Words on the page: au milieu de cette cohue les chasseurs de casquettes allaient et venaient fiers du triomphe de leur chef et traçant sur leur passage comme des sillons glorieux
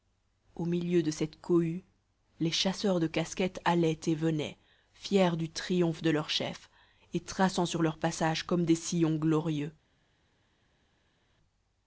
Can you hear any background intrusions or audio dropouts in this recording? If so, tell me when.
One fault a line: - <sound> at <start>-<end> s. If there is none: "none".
none